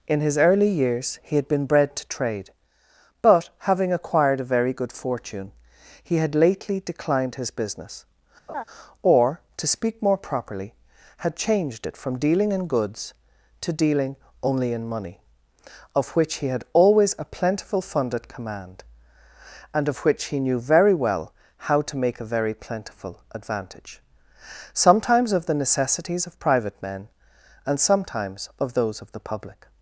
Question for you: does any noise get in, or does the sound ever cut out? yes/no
yes